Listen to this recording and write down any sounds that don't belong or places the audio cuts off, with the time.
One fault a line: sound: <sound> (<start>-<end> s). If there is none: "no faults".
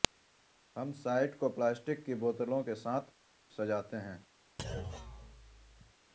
sound: thud (4.6-5.9 s)